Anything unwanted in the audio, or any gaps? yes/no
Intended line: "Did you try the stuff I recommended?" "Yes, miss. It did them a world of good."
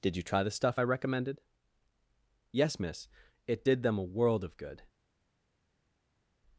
no